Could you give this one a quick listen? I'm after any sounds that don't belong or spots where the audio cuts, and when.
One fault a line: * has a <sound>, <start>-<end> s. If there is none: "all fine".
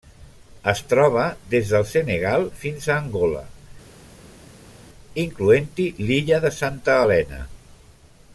all fine